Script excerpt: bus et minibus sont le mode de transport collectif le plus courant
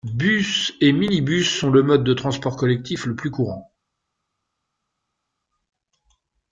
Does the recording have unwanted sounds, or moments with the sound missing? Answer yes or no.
no